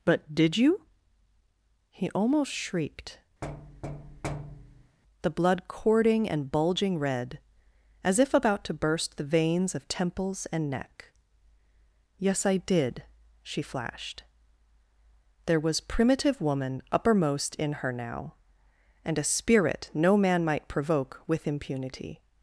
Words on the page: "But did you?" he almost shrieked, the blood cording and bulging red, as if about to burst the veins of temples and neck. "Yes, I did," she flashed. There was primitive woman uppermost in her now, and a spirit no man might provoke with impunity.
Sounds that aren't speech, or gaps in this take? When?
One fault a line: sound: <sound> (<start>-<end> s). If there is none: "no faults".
sound: thud (3.4-5.0 s)